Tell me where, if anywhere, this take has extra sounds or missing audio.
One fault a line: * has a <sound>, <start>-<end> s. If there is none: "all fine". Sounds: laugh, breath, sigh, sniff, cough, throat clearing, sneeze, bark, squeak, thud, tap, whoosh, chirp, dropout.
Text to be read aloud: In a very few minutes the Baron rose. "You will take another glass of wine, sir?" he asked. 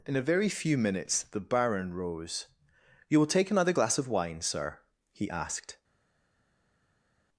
all fine